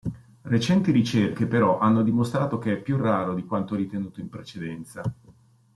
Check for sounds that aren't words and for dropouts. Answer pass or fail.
pass